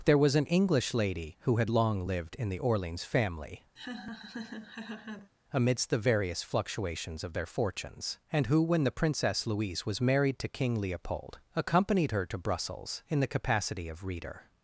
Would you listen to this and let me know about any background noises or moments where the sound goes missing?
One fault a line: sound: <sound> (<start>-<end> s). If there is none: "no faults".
sound: laugh (3.8-5.3 s)